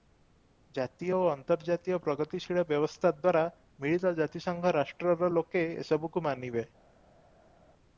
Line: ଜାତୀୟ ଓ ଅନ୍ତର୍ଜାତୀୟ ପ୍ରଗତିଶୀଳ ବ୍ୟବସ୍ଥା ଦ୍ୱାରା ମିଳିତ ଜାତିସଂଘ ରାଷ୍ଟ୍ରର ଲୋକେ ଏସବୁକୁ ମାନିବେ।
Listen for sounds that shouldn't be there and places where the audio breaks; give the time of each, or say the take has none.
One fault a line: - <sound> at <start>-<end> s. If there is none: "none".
none